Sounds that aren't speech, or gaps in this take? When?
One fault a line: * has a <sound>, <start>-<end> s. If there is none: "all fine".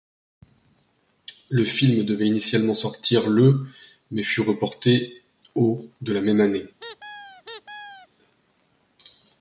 * has a squeak, 6.8-8.1 s